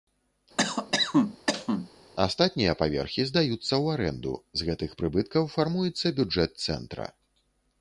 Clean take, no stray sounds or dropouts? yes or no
no